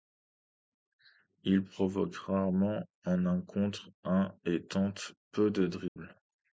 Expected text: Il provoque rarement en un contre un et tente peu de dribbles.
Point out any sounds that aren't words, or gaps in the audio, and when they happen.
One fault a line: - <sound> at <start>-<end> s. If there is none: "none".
- dropout at 5.9-6.0 s